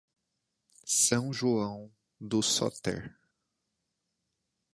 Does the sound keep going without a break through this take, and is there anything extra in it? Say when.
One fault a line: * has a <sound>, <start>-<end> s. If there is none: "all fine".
all fine